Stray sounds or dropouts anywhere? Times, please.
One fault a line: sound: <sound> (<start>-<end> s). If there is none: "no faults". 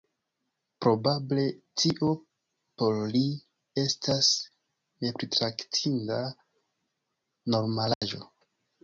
sound: dropout (7.9-8.0 s)